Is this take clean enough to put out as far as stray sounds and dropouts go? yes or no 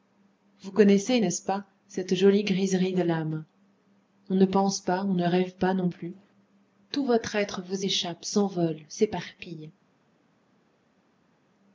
yes